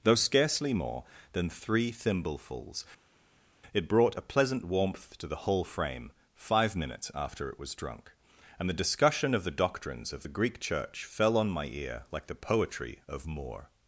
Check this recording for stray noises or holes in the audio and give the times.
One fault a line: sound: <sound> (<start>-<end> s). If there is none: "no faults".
no faults